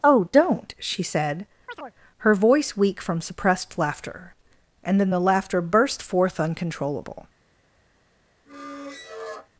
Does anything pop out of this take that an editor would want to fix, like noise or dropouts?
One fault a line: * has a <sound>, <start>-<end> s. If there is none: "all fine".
* has a chirp, 1.7-1.9 s
* has a squeak, 8.5-9.5 s